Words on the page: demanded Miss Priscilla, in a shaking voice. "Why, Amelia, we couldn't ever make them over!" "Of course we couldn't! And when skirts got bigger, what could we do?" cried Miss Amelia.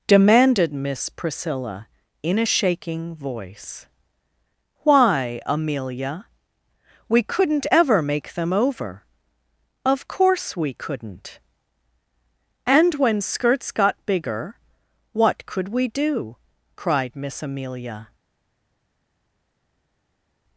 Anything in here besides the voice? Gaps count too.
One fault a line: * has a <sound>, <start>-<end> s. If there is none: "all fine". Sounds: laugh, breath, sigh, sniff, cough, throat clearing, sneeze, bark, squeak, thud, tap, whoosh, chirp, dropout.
all fine